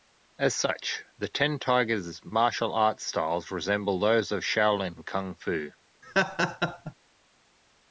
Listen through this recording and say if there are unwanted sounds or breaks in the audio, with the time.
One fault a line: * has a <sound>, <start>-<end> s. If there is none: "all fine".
* has a laugh, 6.0-6.9 s